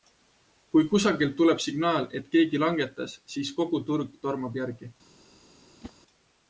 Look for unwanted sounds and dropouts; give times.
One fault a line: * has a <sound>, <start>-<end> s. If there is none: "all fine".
* has a whoosh, 5.8-5.9 s